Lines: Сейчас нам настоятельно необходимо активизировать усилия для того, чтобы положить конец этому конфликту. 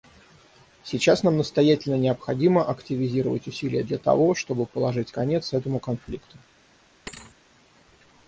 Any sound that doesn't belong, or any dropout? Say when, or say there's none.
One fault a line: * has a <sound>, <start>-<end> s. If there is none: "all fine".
* has a thud, 7.1-7.4 s